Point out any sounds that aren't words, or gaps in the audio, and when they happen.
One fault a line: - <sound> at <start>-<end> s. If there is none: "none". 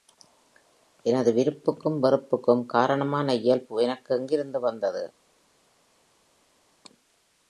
none